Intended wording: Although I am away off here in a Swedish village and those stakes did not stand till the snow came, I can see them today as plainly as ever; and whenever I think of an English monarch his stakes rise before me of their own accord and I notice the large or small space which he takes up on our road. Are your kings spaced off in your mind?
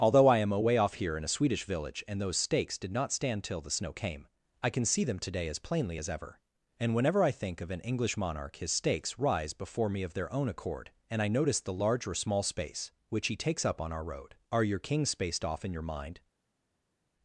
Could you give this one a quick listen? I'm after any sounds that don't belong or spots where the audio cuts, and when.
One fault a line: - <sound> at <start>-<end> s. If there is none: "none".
none